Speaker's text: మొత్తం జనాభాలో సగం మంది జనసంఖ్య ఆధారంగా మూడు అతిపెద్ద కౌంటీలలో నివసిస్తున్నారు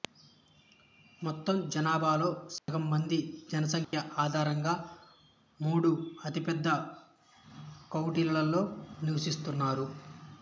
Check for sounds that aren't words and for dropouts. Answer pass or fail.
fail